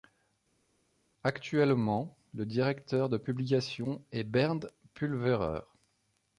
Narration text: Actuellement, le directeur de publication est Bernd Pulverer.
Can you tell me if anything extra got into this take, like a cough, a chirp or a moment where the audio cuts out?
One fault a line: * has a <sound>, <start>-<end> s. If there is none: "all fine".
all fine